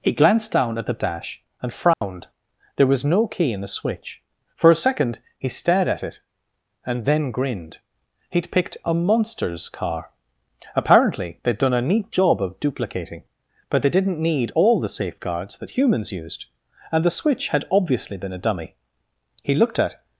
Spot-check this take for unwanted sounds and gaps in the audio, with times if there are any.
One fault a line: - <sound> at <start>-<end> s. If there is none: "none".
- dropout at 1.9-2.0 s